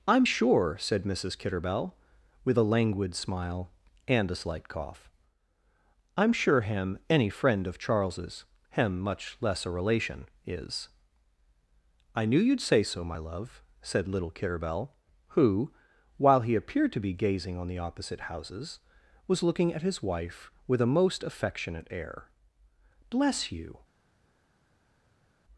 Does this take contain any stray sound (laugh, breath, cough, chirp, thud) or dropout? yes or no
no